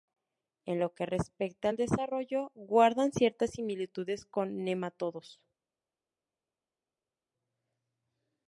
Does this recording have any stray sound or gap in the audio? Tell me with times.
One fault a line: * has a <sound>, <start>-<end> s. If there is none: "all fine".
all fine